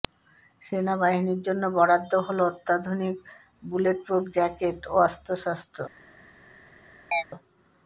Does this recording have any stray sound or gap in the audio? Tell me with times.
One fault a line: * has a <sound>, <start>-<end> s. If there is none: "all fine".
* has a chirp, 7.1-7.2 s